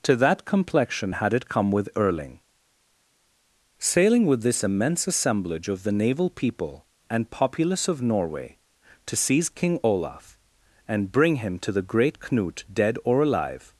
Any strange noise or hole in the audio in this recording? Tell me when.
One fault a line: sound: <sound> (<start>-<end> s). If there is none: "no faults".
no faults